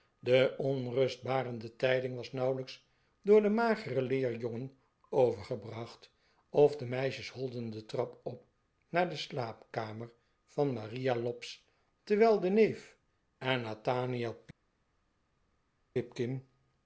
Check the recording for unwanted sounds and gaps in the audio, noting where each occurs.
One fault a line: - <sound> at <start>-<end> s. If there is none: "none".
none